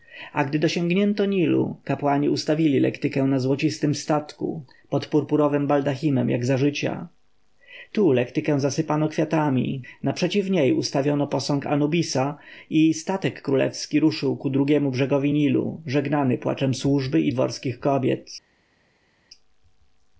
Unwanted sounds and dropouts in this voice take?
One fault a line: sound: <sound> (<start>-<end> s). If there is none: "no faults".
no faults